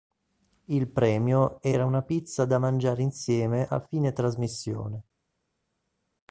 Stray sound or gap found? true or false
false